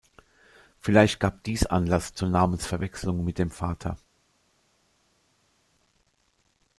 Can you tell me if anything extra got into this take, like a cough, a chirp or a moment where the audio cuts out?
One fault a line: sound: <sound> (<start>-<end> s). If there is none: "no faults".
no faults